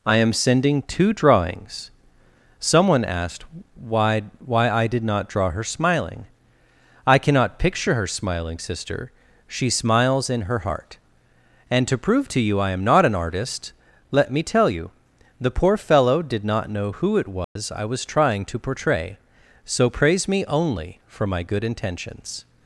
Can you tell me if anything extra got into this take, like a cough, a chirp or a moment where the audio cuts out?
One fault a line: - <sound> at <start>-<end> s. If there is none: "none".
- dropout at 17.4-17.6 s